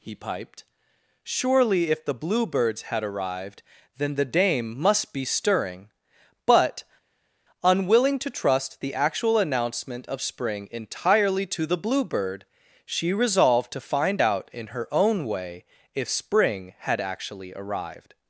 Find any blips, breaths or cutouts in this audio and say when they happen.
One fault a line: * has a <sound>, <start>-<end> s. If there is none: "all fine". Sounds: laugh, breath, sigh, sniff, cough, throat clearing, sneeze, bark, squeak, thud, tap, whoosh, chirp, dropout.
all fine